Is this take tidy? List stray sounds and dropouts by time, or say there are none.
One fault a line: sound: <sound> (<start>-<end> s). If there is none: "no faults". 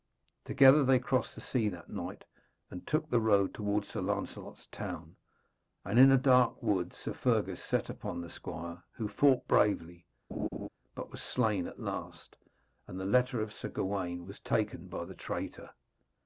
sound: laugh (10.3-10.7 s)